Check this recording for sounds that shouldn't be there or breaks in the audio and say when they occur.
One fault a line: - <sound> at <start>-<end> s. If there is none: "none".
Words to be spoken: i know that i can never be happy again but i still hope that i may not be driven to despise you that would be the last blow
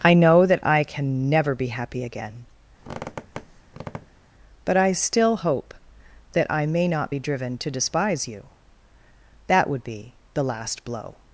- squeak at 2.8-4.3 s